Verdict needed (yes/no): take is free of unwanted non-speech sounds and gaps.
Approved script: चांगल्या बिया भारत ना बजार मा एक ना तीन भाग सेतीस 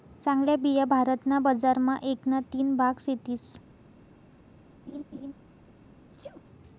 no